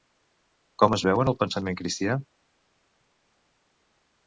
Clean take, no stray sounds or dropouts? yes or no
yes